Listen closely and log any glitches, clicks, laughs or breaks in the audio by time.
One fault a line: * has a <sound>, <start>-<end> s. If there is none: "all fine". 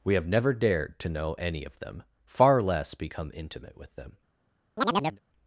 * has a chirp, 4.8-5.2 s